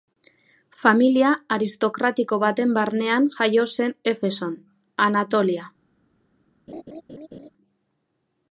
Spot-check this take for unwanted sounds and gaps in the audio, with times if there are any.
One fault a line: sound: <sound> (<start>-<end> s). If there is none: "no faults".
sound: laugh (6.7-7.5 s)